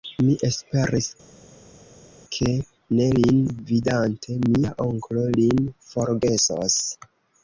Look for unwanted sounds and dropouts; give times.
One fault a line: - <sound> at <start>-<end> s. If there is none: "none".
none